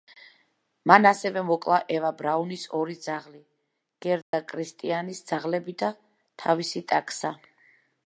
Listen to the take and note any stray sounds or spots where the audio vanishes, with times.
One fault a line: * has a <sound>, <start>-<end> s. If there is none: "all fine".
* has a dropout, 4.2-4.3 s